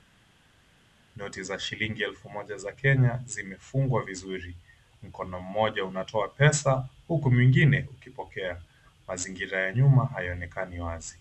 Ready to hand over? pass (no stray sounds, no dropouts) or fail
pass